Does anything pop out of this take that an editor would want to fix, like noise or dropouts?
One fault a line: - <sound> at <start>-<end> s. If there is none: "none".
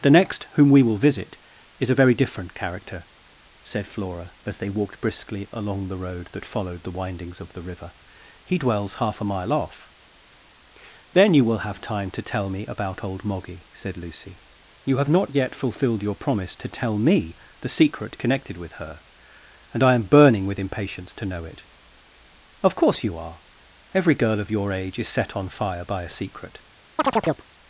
- chirp at 27.0-27.5 s